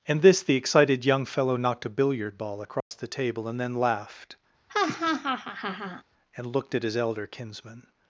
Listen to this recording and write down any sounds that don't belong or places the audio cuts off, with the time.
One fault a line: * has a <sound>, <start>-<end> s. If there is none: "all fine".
* has a dropout, 2.8-2.9 s
* has a laugh, 4.7-6.0 s